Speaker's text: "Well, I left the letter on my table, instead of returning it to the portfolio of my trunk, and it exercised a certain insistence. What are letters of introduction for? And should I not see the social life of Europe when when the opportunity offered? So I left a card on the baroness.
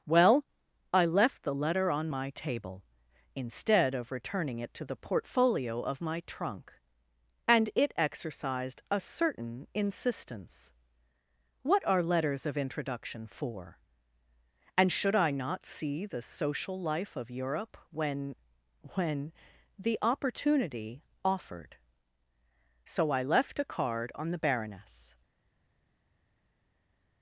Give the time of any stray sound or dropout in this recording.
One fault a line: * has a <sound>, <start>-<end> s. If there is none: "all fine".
all fine